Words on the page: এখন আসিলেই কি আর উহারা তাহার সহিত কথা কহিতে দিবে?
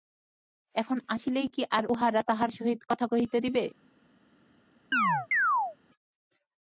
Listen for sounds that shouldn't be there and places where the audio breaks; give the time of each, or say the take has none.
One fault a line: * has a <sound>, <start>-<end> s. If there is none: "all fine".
* has a chirp, 4.9-5.8 s